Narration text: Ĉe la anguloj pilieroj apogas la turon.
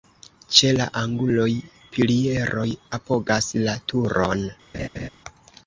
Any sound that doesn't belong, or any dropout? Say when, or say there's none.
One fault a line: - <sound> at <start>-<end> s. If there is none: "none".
- laugh at 4.7-5.1 s